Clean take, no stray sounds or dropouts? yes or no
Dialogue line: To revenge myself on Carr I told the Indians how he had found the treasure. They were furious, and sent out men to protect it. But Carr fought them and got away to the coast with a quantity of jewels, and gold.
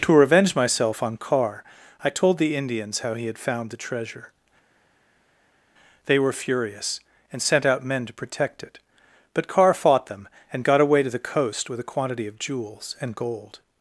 yes